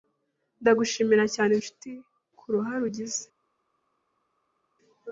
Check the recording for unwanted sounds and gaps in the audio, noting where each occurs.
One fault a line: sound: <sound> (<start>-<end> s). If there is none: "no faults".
no faults